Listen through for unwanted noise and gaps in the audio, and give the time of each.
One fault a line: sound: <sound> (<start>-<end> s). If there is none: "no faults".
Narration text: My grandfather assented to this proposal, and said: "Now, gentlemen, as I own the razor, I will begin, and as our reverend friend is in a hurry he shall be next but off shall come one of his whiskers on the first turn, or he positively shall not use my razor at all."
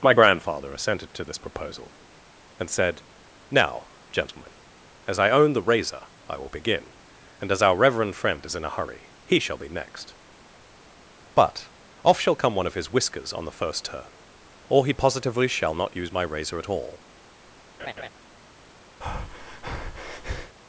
sound: laugh (17.8-18.1 s)
sound: breath (19.0-20.6 s)